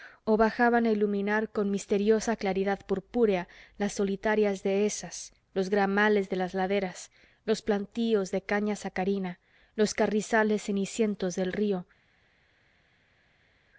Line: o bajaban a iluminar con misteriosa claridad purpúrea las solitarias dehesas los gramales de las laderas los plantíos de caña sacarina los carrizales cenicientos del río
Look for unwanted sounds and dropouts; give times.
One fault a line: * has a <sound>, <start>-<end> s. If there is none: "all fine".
all fine